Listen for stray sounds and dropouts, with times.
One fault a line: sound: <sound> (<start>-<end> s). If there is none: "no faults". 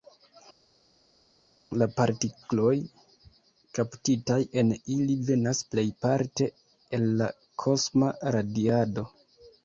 no faults